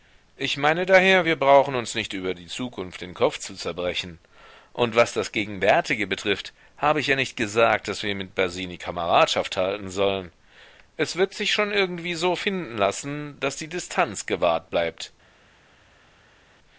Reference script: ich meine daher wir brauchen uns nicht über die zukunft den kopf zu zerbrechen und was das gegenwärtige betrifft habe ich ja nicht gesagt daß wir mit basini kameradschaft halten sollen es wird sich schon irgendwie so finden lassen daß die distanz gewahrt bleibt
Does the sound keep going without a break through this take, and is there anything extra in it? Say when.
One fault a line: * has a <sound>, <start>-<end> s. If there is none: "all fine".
all fine